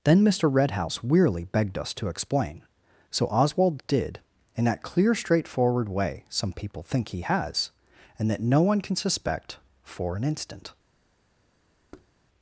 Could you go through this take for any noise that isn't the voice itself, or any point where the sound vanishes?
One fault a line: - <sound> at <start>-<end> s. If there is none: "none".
- thud at 11.9-12.1 s